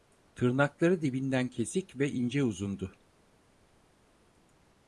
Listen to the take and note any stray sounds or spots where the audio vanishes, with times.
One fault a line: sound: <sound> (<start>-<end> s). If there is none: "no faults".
no faults